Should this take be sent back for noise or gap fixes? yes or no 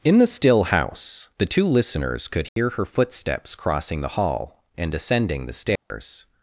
yes